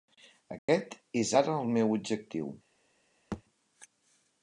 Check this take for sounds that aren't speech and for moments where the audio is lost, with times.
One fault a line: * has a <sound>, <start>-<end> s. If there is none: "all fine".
* has a dropout, 0.6-0.7 s
* has a thud, 3.3-3.4 s